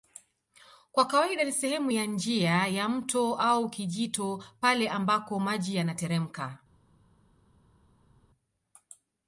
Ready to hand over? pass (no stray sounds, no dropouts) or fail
pass